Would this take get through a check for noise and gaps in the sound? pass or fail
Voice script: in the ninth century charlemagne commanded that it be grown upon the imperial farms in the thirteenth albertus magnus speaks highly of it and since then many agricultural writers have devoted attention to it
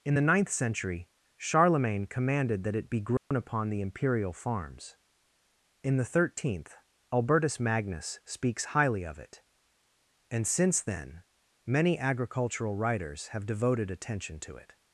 fail